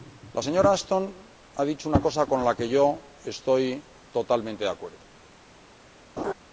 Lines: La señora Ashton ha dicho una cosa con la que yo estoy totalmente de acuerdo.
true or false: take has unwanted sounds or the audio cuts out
true